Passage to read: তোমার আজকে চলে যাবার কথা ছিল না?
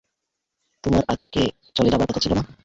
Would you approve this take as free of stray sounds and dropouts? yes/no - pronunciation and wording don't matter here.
no